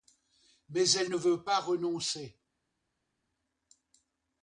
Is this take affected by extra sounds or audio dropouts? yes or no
no